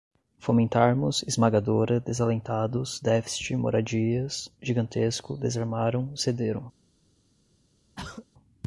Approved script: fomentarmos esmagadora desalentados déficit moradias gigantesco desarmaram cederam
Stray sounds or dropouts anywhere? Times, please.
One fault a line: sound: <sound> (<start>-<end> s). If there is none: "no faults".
sound: throat clearing (8.0-8.3 s)